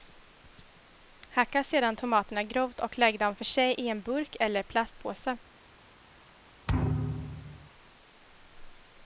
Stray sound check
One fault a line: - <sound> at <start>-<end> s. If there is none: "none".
- thud at 6.7-7.7 s